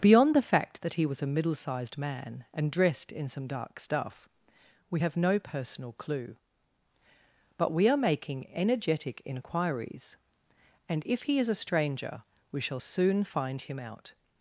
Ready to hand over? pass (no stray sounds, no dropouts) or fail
pass